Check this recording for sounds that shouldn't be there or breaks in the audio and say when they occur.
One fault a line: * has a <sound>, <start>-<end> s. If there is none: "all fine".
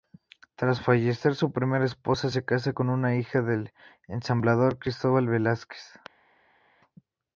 all fine